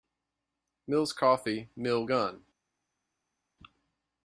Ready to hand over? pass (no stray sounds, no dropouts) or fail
pass